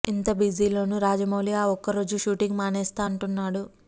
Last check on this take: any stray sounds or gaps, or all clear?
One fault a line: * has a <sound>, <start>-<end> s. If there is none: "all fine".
all fine